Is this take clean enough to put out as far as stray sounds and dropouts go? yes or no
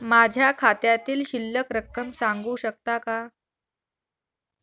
yes